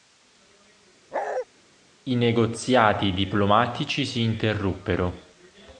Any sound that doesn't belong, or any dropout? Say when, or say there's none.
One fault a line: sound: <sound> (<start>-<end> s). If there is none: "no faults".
sound: bark (1.1-1.5 s)